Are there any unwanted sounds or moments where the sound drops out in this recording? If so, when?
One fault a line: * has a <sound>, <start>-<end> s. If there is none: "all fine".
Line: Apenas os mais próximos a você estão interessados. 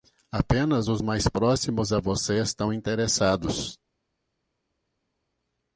all fine